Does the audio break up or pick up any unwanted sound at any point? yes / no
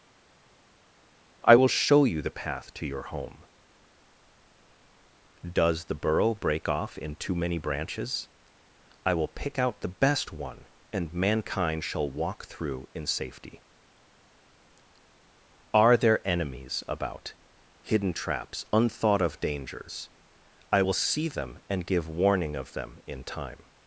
no